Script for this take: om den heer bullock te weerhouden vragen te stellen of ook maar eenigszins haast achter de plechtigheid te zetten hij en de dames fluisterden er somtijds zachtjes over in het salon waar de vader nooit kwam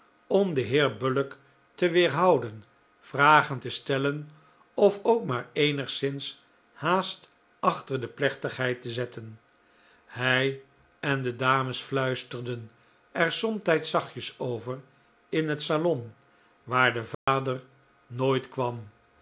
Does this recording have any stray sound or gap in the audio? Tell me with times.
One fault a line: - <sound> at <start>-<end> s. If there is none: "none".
- dropout at 17.1-17.3 s